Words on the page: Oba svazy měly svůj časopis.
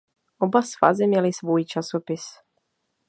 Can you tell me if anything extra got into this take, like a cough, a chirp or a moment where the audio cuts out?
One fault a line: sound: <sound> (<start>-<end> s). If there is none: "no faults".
no faults